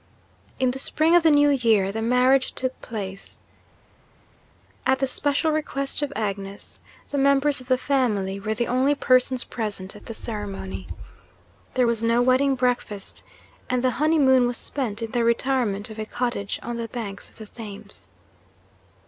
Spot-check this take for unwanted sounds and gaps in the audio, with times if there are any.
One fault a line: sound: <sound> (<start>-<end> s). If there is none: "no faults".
no faults